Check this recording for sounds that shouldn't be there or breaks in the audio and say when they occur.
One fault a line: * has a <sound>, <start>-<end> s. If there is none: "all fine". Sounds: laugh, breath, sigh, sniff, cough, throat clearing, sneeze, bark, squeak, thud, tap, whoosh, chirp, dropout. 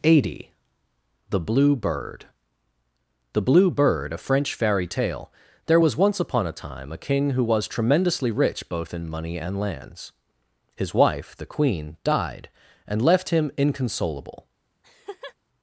* has a laugh, 14.8-15.4 s